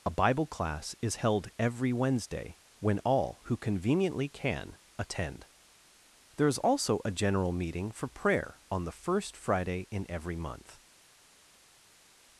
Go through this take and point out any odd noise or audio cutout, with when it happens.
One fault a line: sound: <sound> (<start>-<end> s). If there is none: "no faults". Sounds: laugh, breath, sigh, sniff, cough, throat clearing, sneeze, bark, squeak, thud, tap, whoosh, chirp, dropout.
no faults